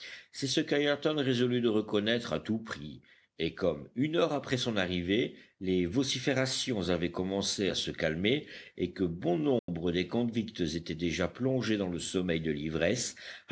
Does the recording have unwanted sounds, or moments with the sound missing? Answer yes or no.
yes